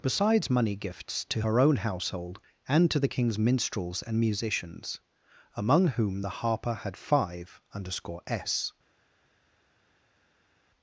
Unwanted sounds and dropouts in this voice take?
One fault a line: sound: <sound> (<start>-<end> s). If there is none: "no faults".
no faults